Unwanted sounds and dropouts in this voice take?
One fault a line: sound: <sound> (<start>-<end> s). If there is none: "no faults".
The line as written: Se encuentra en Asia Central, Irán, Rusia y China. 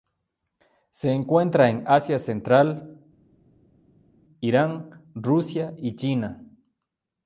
no faults